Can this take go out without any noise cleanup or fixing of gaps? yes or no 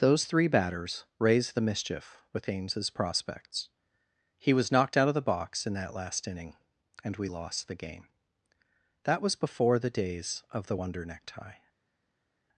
yes